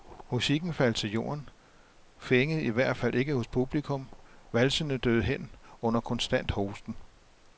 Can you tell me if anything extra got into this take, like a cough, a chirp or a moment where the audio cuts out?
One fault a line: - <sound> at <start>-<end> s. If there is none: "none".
none